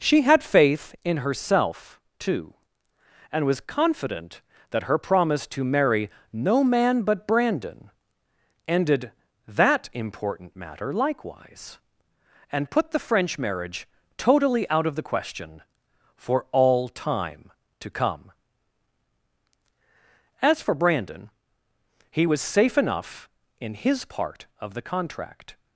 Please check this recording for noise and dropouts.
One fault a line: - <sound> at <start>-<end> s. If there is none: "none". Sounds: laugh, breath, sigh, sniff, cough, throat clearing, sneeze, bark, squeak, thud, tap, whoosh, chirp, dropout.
none